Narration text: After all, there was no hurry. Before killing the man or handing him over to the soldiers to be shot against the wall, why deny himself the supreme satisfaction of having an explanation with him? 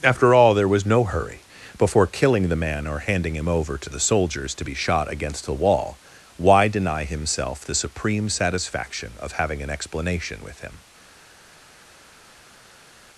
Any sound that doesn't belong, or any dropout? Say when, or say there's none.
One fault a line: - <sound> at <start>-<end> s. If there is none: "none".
none